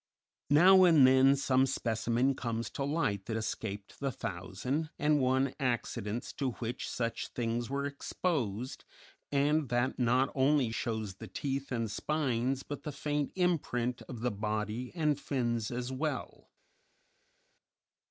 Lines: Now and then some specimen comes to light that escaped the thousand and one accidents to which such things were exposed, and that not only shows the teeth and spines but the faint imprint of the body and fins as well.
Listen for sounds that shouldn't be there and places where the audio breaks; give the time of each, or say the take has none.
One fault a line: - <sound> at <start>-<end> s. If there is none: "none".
none